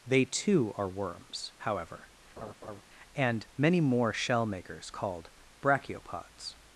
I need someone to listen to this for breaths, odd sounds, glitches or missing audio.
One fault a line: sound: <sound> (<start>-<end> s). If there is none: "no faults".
sound: laugh (2.4-2.8 s)